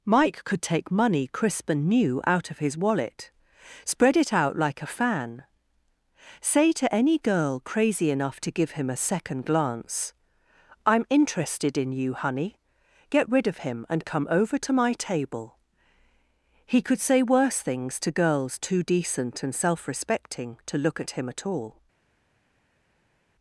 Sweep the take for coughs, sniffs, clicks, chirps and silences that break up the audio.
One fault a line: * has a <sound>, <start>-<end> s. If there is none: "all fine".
all fine